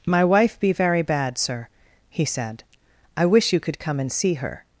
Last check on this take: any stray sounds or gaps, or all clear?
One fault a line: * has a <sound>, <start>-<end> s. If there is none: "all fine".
all fine